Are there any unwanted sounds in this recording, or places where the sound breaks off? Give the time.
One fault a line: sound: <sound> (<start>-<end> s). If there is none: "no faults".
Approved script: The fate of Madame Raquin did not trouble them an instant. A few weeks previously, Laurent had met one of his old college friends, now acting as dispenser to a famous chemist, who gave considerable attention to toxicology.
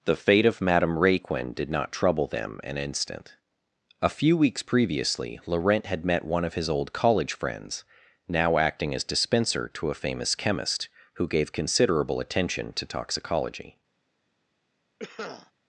sound: cough (15.0-15.5 s)